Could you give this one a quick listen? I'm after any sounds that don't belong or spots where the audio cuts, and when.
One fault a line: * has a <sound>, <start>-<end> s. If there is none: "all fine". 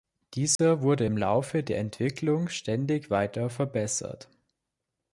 * has a dropout, 0.6-0.6 s